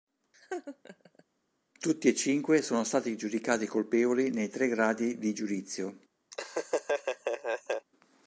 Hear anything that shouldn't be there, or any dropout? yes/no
yes